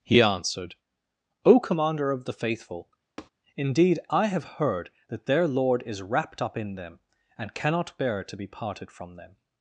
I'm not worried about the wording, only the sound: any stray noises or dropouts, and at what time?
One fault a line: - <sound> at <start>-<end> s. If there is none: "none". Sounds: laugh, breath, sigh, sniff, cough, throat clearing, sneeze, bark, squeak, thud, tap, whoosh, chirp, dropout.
- tap at 3.2-3.3 s